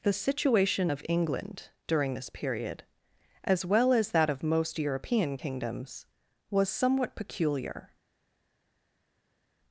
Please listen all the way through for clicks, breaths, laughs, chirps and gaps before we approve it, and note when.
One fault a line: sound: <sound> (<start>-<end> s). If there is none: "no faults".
no faults